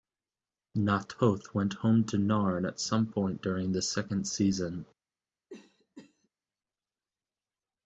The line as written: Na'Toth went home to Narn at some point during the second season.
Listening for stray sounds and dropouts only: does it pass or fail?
fail